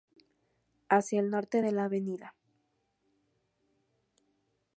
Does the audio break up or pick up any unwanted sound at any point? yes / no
no